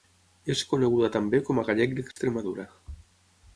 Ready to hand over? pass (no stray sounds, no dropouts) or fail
fail